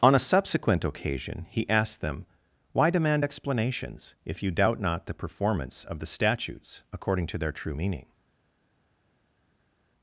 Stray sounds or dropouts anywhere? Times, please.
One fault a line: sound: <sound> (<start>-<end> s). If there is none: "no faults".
no faults